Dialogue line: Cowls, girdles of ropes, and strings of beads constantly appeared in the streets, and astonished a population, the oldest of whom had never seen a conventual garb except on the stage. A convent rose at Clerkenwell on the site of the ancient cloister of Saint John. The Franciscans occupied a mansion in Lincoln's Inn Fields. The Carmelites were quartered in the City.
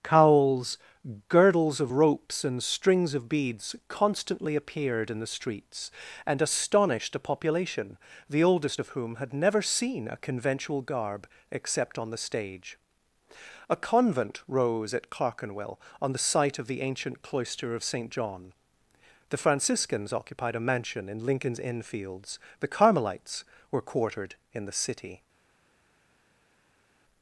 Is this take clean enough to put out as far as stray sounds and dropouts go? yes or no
yes